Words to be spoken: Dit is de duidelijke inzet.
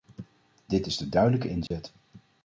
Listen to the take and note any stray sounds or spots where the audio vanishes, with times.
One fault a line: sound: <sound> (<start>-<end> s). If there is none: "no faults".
sound: dropout (1.7-1.7 s)